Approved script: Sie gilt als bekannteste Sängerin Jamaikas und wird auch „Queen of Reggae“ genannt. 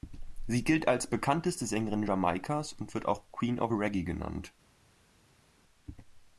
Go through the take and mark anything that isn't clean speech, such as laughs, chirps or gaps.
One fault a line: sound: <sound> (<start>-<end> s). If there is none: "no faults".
no faults